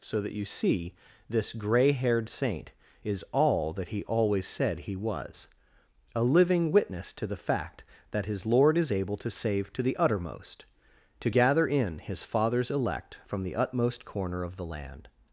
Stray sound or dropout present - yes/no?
no